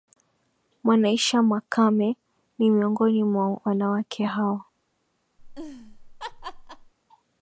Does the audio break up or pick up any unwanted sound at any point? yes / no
yes